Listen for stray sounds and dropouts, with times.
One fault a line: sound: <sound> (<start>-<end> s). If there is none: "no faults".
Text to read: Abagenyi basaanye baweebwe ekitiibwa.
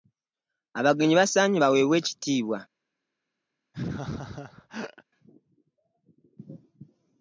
sound: laugh (3.7-5.0 s)